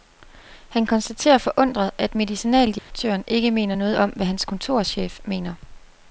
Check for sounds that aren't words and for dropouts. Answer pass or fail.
fail